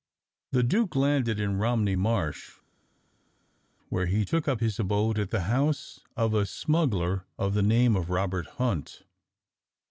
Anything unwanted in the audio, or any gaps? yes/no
no